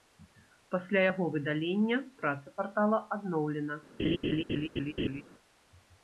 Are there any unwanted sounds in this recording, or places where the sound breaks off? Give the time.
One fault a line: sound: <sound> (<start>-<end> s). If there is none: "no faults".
sound: laugh (4.0-5.2 s)